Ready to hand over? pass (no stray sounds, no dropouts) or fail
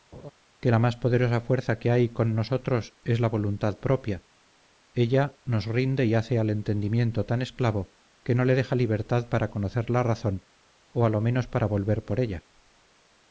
fail